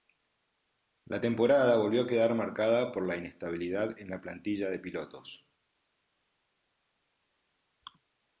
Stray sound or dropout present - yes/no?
no